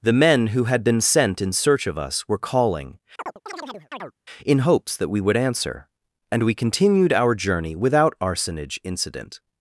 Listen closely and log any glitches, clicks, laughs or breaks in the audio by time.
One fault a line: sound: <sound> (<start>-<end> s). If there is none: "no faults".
sound: chirp (3.2-4.1 s)